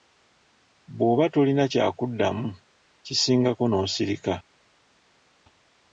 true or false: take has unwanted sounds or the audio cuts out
false